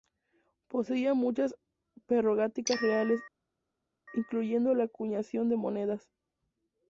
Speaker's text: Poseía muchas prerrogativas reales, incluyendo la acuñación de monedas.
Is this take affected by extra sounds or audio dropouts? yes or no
no